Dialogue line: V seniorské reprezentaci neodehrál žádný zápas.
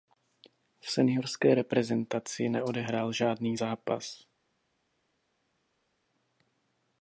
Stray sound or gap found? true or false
false